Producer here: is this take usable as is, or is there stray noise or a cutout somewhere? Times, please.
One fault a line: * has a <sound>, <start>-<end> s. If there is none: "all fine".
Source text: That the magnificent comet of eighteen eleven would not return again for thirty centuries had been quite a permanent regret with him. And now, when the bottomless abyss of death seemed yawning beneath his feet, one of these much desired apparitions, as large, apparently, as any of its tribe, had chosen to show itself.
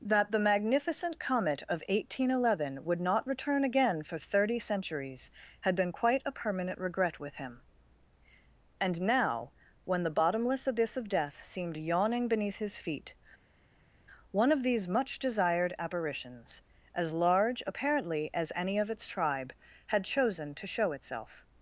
all fine